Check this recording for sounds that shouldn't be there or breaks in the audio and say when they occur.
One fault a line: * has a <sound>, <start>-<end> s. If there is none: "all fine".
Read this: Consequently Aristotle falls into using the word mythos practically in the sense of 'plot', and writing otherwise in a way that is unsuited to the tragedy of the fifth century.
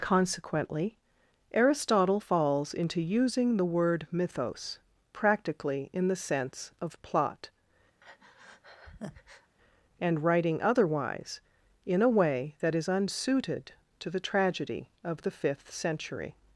* has a breath, 8.0-9.5 s